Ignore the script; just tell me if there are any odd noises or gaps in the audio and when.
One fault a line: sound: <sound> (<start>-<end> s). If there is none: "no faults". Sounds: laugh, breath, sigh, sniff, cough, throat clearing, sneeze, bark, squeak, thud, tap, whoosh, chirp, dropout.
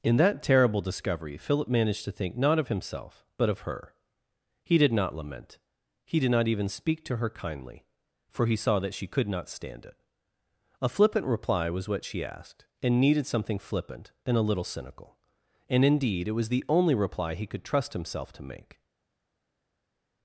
no faults